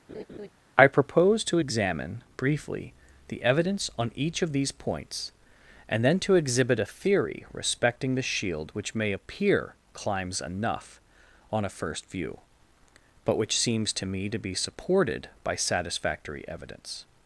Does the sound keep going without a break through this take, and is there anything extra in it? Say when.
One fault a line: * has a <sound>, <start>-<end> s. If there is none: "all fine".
* has a laugh, 0.1-0.5 s